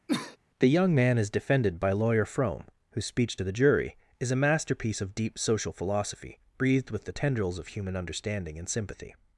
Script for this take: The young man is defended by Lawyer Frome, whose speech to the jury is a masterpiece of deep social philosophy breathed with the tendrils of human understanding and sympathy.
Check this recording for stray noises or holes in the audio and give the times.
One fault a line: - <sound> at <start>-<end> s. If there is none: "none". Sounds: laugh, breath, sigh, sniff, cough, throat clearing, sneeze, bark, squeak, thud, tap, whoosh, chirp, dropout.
- cough at 0.1-0.4 s